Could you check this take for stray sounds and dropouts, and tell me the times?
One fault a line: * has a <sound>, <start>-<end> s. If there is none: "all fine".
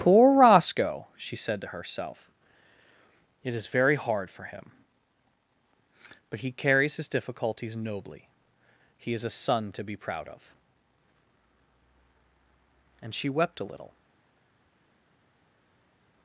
all fine